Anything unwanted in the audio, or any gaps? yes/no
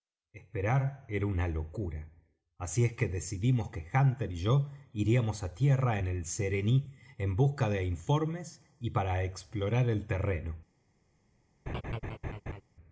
yes